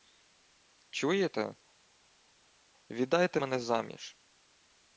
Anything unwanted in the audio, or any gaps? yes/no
no